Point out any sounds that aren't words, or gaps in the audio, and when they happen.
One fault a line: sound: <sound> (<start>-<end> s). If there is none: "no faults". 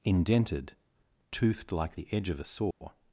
sound: dropout (2.7-2.8 s)